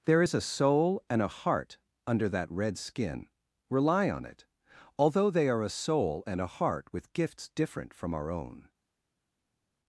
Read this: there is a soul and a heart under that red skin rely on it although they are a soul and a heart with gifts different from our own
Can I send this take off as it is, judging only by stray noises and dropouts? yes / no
yes